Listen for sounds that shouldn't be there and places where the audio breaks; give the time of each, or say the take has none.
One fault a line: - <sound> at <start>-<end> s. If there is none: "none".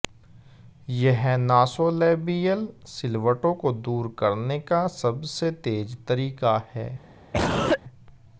- cough at 7.3-7.8 s